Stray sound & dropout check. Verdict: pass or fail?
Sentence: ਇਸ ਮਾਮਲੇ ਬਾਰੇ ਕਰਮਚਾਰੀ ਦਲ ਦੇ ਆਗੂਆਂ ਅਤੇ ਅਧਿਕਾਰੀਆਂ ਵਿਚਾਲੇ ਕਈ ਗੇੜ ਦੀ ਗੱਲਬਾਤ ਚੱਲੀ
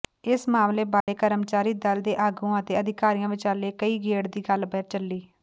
fail